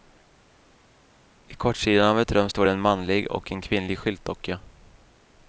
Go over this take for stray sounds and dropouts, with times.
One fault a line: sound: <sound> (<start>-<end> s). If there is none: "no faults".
no faults